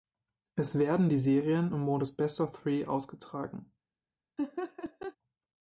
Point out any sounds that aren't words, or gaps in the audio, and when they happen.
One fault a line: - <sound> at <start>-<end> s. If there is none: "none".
- laugh at 4.4-5.2 s